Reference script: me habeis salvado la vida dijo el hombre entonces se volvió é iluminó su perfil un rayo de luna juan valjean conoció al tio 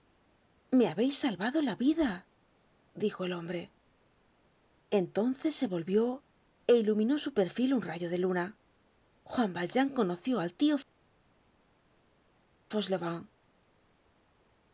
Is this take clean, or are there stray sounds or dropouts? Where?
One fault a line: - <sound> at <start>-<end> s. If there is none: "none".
none